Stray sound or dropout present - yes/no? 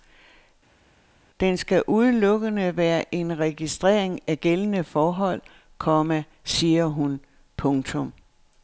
no